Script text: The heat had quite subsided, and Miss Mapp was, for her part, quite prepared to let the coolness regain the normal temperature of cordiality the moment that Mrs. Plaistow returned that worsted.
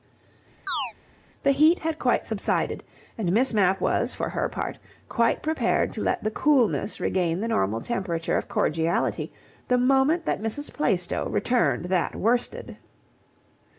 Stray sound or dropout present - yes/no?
yes